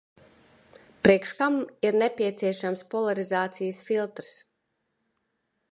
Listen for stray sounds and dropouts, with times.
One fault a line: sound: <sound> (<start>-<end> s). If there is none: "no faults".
no faults